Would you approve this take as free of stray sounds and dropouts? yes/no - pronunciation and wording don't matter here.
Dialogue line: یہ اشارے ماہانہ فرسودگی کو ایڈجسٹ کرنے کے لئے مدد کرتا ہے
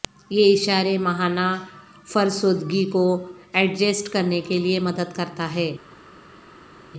yes